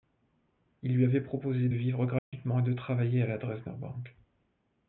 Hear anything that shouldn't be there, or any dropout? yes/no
yes